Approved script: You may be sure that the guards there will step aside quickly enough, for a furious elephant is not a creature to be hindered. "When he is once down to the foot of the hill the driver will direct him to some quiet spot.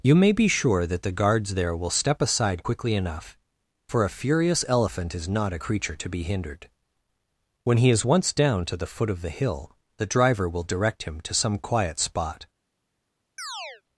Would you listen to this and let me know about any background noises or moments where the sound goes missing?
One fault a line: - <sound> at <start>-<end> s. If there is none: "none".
- chirp at 13.4-13.8 s